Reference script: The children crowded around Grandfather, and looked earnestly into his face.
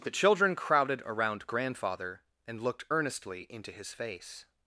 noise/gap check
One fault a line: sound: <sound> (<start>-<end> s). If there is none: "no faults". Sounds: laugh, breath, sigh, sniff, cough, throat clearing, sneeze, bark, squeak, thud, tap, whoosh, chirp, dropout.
no faults